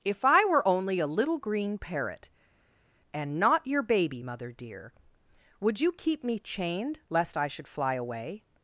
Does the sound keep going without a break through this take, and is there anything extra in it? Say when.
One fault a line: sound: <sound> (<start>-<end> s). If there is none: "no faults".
no faults